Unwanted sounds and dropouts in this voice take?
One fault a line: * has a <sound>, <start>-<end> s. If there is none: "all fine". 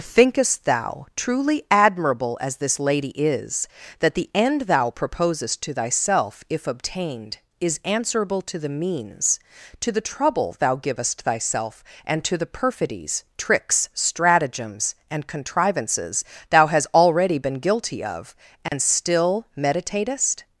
* has a dropout, 18.7-18.7 s